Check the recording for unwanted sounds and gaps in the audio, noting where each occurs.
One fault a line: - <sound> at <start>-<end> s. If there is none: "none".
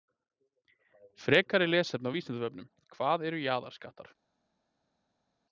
none